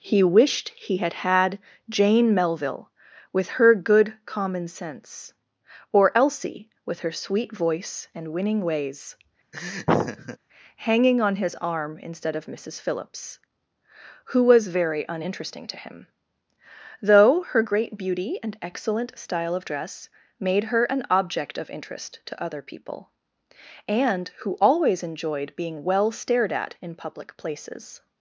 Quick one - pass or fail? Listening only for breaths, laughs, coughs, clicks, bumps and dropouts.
fail